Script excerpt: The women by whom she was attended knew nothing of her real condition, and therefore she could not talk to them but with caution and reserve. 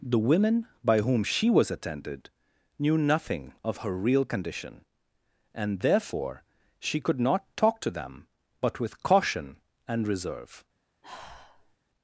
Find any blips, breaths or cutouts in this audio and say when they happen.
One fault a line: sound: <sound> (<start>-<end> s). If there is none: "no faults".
sound: sigh (11.0-11.8 s)